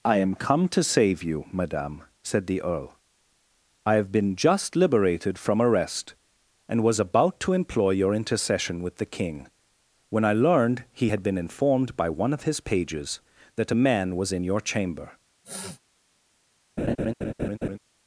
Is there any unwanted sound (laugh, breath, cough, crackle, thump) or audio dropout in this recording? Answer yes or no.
yes